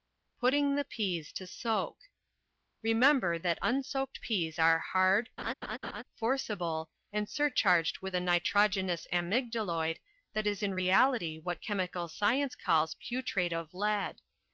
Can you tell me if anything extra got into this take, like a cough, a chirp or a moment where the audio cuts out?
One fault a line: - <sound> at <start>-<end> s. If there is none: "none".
- laugh at 5.4-6.0 s